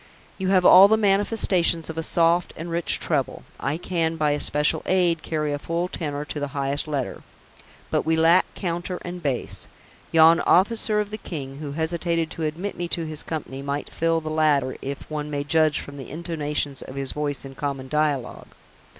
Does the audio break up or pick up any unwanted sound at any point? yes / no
no